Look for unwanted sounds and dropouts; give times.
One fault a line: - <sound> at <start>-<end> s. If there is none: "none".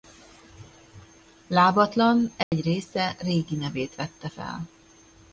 - dropout at 2.4-2.5 s